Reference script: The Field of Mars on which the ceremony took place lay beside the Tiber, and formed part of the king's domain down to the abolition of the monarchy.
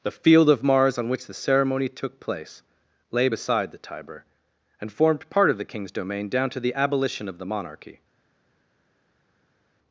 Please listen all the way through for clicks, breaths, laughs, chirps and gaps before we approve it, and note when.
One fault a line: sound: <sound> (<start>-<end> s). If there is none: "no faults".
no faults